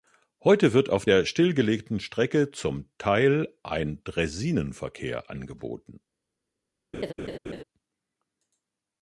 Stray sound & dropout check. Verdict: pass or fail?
fail